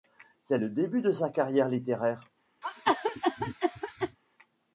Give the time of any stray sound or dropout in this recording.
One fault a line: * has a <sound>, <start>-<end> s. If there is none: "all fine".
* has a cough, 2.6-4.2 s